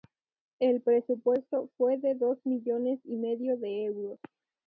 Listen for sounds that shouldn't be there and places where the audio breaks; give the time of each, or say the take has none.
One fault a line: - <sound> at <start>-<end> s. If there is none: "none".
none